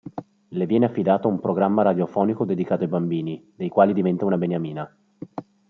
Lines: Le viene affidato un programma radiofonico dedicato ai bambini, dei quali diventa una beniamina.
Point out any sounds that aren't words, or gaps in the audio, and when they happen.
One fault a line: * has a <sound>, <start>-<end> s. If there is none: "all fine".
all fine